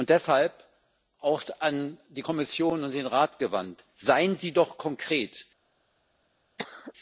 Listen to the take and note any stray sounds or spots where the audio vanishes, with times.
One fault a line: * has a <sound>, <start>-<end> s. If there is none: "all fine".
* has a cough, 6.6-6.9 s